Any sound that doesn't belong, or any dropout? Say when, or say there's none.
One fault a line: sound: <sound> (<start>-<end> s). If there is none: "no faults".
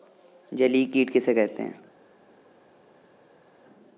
no faults